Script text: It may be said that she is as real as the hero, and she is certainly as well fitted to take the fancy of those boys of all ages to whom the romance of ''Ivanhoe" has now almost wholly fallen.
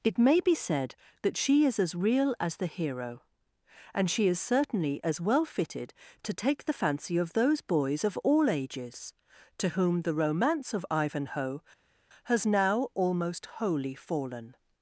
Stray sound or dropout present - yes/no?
no